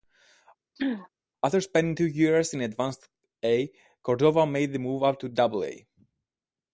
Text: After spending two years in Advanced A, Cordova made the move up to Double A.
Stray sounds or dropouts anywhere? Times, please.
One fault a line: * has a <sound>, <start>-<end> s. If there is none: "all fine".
* has a throat clearing, 0.8-1.1 s